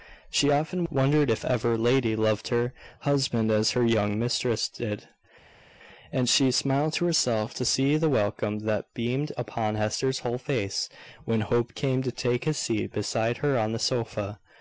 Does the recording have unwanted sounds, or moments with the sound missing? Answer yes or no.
no